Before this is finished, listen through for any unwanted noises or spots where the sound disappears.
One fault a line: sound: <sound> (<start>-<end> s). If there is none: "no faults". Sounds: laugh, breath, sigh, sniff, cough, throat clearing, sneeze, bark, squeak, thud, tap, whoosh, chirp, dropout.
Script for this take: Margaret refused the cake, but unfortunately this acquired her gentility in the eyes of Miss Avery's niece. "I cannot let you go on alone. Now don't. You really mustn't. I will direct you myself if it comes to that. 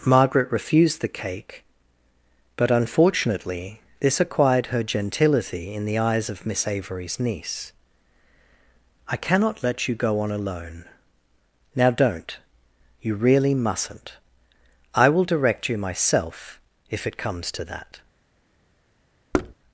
sound: thud (19.3-19.5 s)